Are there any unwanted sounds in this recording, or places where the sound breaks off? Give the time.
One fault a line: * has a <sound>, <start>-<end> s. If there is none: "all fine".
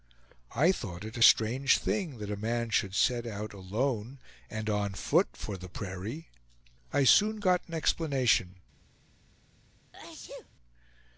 * has a sneeze, 9.9-10.5 s